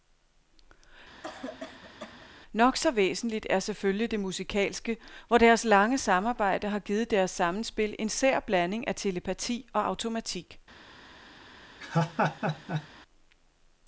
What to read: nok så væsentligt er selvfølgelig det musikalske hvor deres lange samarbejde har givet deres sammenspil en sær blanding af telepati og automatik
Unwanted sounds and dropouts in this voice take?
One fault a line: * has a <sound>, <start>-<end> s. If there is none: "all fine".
* has a cough, 1.2-2.3 s
* has a laugh, 11.8-12.9 s